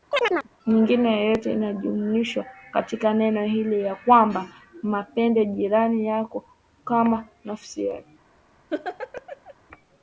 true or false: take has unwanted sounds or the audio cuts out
true